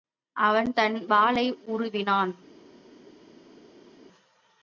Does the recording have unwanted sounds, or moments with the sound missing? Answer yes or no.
no